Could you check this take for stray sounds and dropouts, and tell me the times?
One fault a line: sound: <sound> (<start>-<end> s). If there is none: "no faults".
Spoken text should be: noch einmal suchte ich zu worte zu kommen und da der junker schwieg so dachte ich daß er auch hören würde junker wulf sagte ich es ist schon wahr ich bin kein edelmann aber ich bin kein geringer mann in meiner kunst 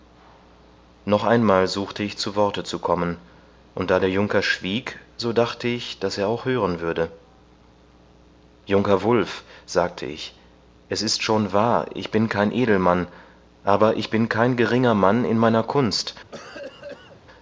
sound: cough (16.3-17.2 s)